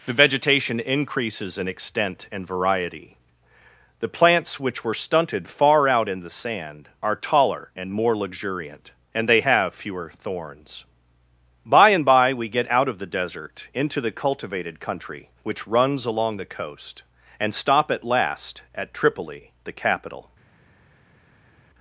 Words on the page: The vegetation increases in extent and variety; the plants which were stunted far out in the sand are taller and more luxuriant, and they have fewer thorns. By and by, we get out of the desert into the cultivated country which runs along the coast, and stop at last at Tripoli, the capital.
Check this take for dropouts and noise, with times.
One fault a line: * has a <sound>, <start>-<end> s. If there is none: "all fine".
all fine